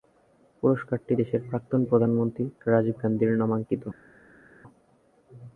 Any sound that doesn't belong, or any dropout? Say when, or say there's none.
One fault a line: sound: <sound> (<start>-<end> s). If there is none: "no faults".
no faults